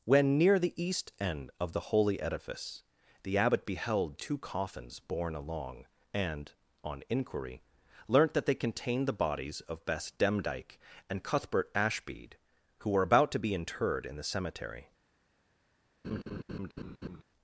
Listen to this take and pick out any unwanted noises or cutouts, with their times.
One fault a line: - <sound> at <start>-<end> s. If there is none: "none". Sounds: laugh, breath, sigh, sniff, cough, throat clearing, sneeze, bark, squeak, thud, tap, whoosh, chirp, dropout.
- laugh at 16.0-17.2 s